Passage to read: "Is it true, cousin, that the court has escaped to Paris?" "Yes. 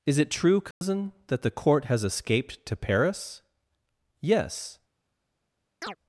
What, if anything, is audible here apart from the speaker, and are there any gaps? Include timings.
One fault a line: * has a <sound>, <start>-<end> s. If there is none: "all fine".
* has a dropout, 0.7-0.8 s
* has a chirp, 5.8-6.0 s